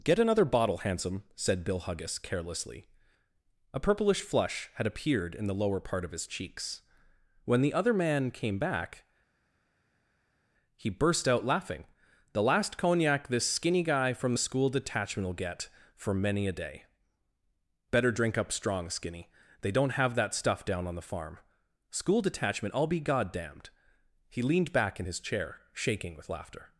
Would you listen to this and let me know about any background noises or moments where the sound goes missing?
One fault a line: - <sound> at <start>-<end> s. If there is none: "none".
none